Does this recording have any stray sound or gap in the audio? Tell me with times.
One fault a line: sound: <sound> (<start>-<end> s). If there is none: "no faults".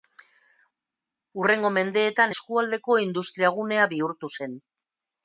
no faults